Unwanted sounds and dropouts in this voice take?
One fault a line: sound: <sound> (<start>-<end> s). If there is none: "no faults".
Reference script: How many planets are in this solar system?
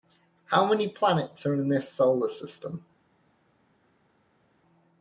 no faults